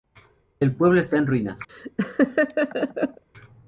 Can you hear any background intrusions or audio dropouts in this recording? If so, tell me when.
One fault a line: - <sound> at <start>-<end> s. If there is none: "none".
- laugh at 1.7-3.2 s